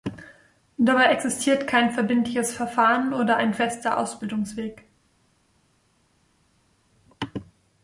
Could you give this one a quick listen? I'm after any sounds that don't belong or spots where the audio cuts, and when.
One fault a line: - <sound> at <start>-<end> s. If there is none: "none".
none